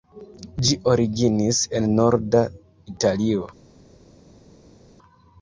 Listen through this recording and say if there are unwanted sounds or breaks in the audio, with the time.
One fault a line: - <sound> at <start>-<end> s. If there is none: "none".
none